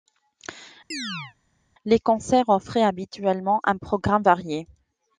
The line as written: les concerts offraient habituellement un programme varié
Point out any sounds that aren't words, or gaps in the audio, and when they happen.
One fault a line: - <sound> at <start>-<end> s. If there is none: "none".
- chirp at 0.9-1.3 s